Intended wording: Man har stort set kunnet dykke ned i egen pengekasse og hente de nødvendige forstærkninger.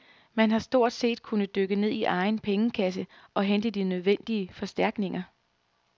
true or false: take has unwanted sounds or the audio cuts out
false